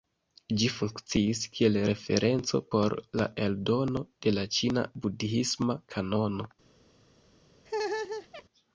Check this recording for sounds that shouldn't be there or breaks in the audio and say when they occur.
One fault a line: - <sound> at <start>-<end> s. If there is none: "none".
- laugh at 7.7-8.4 s